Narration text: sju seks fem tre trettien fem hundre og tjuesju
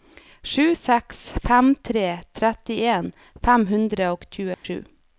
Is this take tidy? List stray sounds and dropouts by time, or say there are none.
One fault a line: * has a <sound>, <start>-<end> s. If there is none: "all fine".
* has a dropout, 4.5-4.6 s